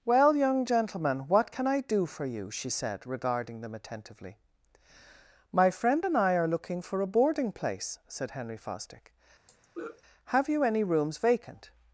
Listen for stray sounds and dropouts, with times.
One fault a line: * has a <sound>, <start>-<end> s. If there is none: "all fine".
* has a throat clearing, 9.5-10.0 s